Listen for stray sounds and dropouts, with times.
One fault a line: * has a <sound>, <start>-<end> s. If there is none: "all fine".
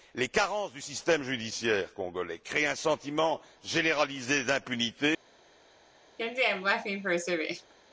* has a laugh, 6.2-7.7 s